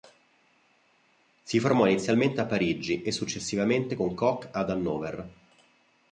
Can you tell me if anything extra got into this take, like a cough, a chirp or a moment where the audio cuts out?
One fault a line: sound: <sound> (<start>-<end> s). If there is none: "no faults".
no faults